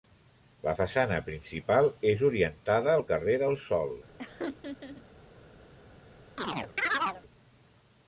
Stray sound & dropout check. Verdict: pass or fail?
fail